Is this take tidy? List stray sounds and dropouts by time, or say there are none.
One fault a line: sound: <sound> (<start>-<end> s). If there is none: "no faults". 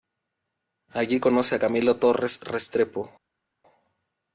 no faults